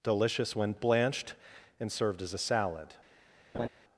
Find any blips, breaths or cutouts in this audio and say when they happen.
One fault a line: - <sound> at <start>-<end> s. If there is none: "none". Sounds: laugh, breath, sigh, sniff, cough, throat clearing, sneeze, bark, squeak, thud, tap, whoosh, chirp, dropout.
- laugh at 3.5-3.7 s